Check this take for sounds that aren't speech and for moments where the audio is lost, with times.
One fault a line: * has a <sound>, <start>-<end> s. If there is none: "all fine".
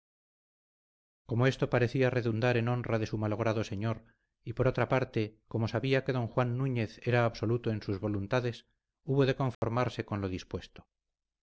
* has a dropout, 9.5-9.6 s